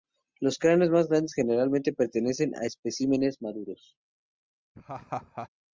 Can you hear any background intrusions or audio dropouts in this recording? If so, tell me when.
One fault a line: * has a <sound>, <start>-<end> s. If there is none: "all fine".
* has a laugh, 4.7-5.5 s